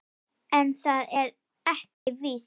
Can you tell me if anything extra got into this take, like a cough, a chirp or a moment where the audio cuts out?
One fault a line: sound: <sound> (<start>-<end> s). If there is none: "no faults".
sound: dropout (1.9-2.1 s)